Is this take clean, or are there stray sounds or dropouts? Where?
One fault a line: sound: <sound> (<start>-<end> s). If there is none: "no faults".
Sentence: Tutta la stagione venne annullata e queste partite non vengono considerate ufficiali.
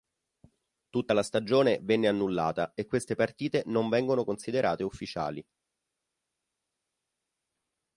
no faults